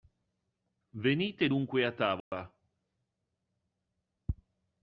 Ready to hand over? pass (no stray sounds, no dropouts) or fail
fail